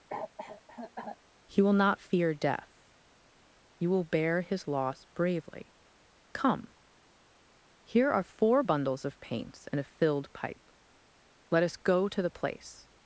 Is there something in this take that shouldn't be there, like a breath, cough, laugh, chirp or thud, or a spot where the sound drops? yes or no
yes